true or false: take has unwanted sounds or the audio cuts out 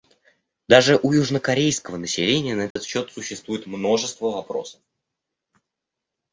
true